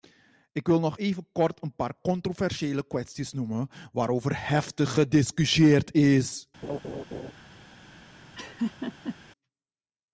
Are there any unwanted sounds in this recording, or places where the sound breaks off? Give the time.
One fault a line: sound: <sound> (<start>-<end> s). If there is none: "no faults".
sound: laugh (6.6-7.3 s)
sound: laugh (8.3-9.2 s)